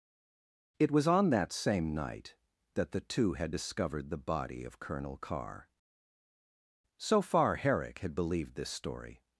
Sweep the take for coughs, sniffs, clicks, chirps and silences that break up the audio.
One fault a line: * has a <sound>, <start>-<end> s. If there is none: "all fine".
all fine